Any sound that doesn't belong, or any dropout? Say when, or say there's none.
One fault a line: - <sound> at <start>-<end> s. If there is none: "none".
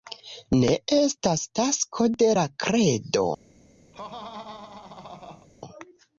- laugh at 3.9-5.5 s